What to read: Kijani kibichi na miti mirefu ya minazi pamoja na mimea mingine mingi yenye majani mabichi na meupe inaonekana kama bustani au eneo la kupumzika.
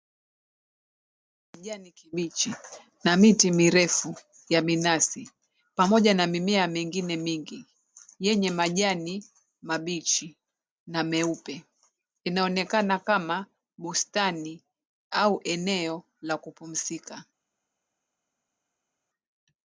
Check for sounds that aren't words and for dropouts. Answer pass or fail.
pass